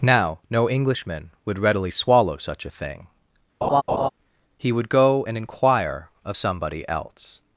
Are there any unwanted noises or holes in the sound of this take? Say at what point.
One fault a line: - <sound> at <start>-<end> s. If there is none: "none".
- laugh at 3.6-4.1 s